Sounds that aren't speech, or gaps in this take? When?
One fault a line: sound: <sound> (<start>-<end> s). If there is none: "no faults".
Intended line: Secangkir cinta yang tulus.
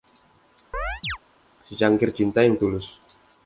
sound: chirp (0.7-1.2 s)